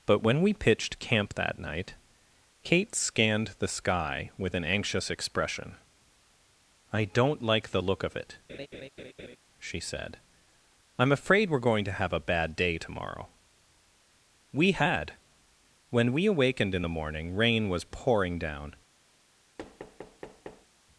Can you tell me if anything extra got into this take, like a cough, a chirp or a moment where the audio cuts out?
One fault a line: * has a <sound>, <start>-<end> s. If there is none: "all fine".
* has a laugh, 8.5-9.4 s
* has a thud, 19.6-20.7 s